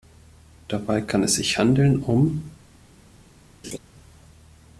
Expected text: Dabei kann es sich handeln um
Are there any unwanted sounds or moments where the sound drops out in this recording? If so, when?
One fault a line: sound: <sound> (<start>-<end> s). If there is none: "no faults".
sound: laugh (3.6-3.8 s)